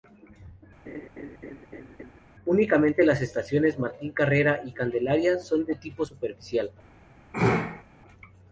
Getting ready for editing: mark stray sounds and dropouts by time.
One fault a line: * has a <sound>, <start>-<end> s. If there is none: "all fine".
* has a laugh, 0.9-2.2 s
* has a sneeze, 7.3-7.8 s